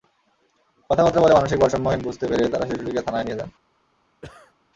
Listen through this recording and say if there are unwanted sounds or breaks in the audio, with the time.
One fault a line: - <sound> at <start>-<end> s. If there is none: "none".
- cough at 4.2-4.5 s